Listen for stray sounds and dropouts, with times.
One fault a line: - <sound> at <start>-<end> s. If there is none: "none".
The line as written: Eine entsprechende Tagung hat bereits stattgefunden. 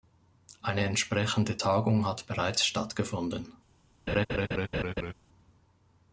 - laugh at 4.1-5.1 s